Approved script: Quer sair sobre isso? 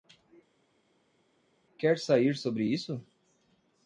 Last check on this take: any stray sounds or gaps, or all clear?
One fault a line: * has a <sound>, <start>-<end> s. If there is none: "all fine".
all fine